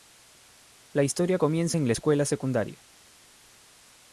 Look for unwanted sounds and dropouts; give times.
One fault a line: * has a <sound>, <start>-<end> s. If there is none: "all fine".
all fine